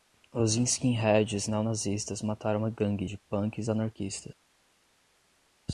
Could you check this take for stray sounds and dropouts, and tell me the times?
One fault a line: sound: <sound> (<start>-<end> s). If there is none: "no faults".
no faults